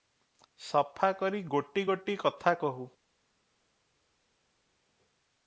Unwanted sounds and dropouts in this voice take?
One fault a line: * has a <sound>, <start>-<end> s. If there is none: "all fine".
all fine